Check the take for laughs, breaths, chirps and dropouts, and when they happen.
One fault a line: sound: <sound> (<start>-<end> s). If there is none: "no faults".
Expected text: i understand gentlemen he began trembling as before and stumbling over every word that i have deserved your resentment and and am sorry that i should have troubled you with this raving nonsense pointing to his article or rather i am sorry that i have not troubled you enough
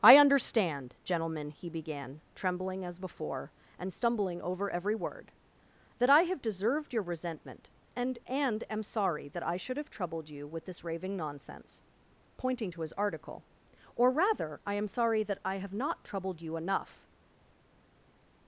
no faults